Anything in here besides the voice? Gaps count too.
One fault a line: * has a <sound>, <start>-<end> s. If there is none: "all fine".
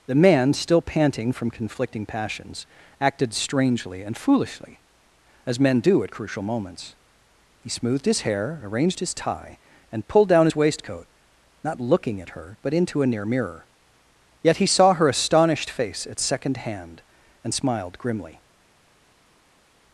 all fine